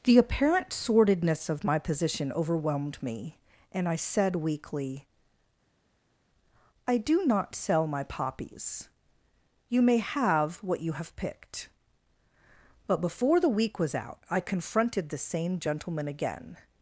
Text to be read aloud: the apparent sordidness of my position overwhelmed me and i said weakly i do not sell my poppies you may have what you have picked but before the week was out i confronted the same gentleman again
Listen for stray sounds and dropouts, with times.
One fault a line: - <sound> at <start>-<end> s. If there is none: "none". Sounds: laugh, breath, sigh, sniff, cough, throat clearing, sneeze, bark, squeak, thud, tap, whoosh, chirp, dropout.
none